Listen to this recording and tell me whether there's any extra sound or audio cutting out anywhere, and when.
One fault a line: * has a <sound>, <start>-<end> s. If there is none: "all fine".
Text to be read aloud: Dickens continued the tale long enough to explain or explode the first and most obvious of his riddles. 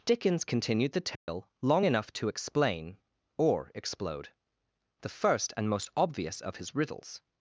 * has a dropout, 1.2-1.3 s